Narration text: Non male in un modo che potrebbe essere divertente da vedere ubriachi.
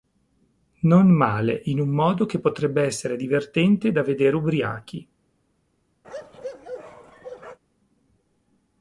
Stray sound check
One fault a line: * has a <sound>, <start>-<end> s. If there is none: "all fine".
* has a bark, 6.0-7.6 s